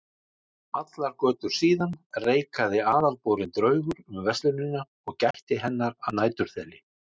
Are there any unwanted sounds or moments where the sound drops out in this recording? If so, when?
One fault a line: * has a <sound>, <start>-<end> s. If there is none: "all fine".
* has a dropout, 5.3-5.3 s